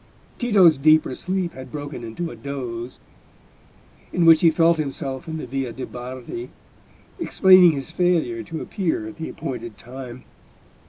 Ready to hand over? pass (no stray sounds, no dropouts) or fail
pass